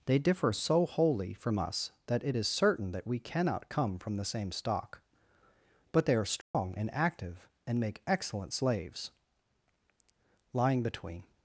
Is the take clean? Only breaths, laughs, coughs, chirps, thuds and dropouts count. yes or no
no